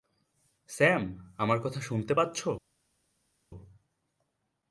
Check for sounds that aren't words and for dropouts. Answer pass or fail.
pass